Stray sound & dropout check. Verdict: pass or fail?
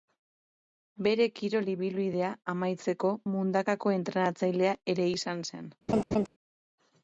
fail